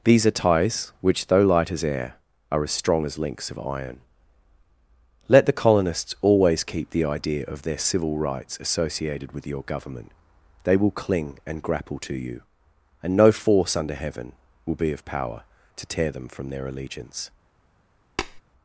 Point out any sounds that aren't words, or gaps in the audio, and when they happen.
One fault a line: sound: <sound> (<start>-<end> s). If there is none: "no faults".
sound: tap (18.2-18.4 s)